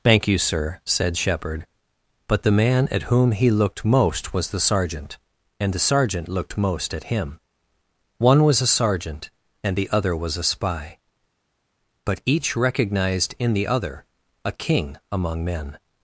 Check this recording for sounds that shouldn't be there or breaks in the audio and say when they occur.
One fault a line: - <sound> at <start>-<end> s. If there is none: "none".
none